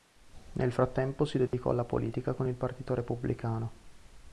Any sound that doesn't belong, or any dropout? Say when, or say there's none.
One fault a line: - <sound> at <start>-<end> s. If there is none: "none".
- dropout at 1.5-1.5 s